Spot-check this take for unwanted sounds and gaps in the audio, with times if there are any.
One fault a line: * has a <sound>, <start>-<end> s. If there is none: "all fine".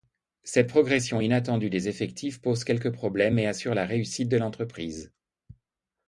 all fine